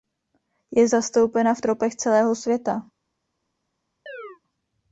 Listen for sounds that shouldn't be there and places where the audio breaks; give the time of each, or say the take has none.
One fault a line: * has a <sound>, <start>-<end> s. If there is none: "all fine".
* has a chirp, 4.1-4.4 s